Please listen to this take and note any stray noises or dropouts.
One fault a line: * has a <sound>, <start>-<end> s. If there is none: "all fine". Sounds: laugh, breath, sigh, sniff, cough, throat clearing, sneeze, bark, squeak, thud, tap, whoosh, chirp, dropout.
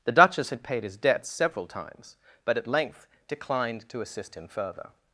all fine